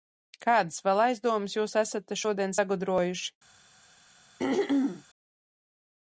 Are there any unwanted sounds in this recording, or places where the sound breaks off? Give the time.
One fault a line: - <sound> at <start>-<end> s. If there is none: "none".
- throat clearing at 4.4-5.0 s